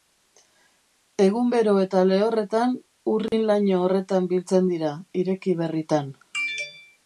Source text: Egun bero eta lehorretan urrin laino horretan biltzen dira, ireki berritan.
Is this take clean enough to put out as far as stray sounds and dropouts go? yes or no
no